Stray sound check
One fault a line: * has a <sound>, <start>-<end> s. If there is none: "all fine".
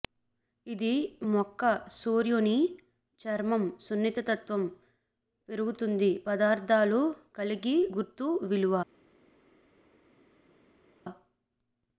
all fine